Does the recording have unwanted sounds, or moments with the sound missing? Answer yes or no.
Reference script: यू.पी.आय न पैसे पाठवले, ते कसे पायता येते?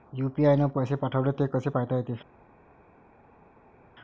no